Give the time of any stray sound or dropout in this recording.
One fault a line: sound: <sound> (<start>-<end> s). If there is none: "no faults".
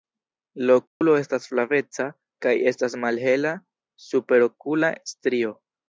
sound: dropout (0.9-1.0 s)